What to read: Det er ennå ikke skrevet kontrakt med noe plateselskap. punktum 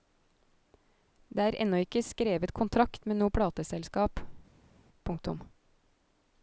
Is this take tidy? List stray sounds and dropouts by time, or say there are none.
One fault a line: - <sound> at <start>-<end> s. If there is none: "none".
none